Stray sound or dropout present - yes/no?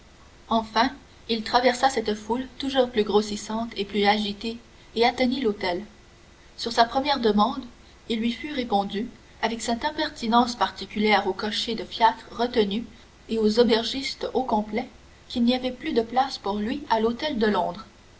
no